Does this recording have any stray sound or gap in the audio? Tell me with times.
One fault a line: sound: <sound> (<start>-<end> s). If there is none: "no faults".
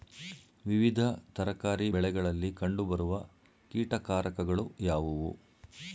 no faults